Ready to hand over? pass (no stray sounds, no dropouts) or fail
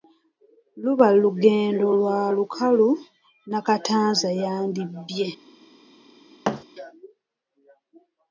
fail